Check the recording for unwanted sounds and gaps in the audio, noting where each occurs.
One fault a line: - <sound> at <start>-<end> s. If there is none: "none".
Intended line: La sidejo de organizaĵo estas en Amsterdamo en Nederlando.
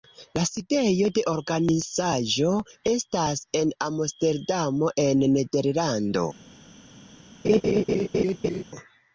- laugh at 7.4-8.6 s